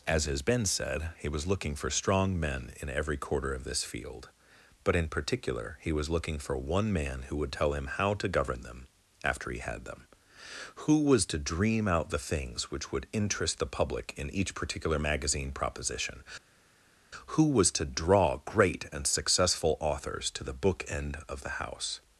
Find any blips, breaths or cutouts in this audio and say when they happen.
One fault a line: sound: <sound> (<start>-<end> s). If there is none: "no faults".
no faults